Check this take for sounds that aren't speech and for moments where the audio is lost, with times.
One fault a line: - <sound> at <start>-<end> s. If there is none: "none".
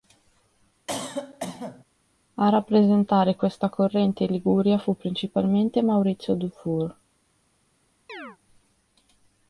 - cough at 0.9-1.8 s
- chirp at 8.1-8.4 s